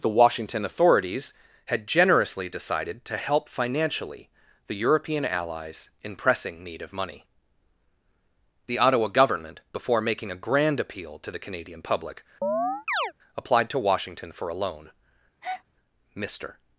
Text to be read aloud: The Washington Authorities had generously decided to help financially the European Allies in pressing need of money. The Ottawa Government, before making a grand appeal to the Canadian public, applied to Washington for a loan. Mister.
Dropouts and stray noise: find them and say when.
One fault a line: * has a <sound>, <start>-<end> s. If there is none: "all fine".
* has a chirp, 12.4-13.1 s
* has a breath, 15.4-15.6 s